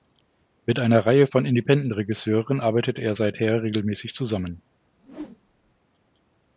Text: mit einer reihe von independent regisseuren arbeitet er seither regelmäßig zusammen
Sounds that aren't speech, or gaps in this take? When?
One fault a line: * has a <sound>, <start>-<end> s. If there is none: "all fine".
* has a whoosh, 5.0-5.8 s